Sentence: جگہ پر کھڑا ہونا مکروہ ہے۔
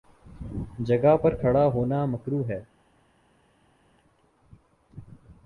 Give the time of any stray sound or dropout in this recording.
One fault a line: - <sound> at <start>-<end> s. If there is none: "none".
none